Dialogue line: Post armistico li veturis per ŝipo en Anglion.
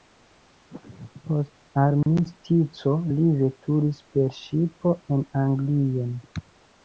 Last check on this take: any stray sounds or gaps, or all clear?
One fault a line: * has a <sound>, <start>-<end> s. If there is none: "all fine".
* has a dropout, 2.0-2.1 s